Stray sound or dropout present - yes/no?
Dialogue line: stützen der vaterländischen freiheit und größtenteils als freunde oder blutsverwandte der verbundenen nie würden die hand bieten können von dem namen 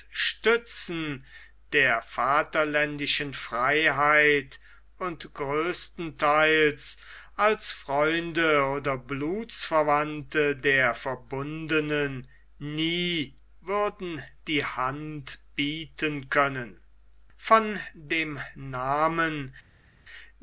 no